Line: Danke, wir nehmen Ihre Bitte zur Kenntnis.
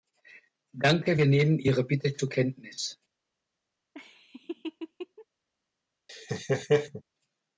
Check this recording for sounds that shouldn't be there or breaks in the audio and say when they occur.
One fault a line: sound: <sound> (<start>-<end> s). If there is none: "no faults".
sound: laugh (3.9-5.3 s)
sound: laugh (6.1-7.0 s)